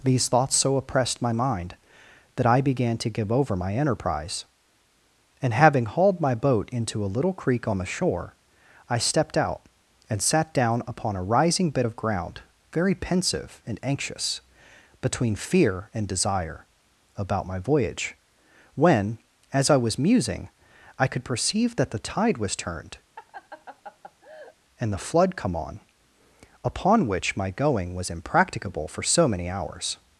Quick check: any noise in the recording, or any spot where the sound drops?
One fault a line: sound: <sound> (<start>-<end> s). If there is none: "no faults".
sound: laugh (23.2-24.6 s)